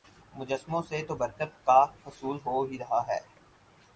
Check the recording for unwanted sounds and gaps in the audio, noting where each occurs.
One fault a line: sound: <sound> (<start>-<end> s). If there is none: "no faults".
no faults